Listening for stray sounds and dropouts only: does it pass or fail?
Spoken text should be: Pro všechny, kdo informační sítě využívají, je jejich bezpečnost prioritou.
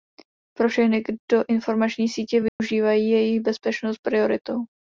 fail